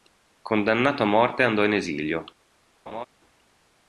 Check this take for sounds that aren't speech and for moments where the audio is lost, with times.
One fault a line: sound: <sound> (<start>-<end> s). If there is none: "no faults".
sound: laugh (2.9-3.1 s)